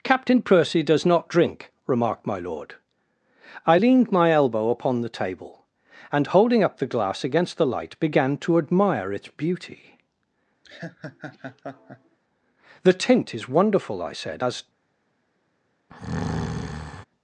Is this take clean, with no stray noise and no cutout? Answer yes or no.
no